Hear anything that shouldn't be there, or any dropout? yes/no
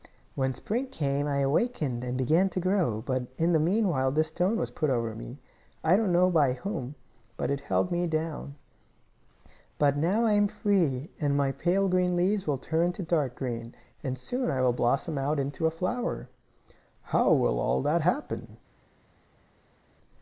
no